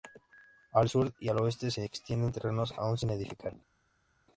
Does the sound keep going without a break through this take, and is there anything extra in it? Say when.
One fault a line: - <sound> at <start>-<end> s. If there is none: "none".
none